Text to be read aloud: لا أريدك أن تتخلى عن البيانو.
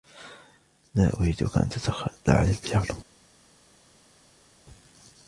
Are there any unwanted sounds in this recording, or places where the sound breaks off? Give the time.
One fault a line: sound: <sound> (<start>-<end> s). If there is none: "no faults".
no faults